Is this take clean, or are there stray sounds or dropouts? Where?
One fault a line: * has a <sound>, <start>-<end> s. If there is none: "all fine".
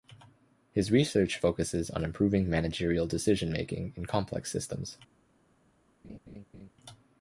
* has a laugh, 6.0-6.7 s